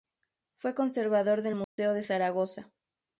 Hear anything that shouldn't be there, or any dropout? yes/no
yes